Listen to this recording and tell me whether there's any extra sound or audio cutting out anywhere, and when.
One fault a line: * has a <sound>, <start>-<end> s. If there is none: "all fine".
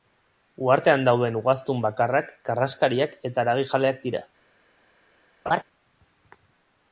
* has a laugh, 5.5-5.6 s